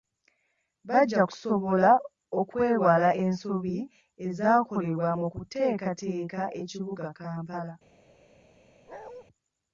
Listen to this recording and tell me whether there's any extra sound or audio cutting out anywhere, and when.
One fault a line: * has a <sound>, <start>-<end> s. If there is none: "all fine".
* has a bark, 8.9-9.2 s